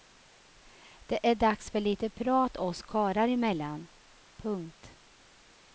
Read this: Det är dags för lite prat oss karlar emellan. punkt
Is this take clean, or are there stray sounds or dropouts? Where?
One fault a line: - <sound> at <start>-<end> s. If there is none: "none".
none